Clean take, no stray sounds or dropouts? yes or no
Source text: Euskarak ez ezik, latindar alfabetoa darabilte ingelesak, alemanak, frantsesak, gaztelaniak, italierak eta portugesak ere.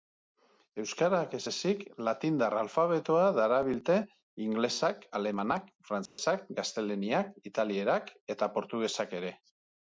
no